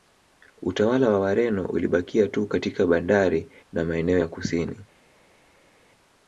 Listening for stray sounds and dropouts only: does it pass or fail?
pass